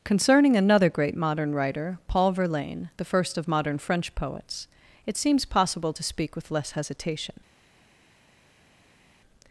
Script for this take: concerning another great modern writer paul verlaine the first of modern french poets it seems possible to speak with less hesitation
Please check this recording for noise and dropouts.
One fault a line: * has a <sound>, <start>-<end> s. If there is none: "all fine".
all fine